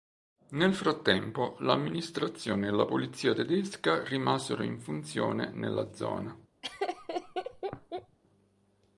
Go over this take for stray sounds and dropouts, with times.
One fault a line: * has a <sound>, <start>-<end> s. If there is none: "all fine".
* has a laugh, 6.6-8.2 s